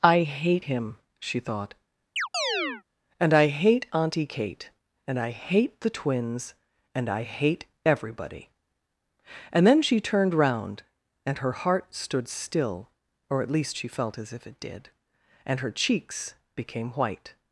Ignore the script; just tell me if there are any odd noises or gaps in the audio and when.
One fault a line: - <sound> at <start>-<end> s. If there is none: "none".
- chirp at 2.2-2.8 s